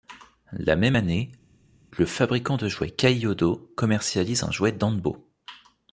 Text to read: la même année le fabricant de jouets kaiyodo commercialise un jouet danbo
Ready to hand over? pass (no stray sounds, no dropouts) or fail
pass